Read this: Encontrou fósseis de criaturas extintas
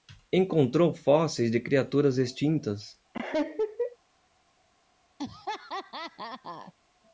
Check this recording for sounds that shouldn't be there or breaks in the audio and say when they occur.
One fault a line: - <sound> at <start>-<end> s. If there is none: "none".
- laugh at 3.1-4.0 s
- laugh at 5.2-6.7 s